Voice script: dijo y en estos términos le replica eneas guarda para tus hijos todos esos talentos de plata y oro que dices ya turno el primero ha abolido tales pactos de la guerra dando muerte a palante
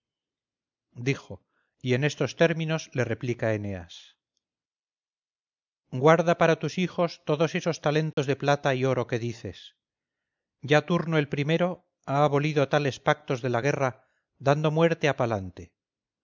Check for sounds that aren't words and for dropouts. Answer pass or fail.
fail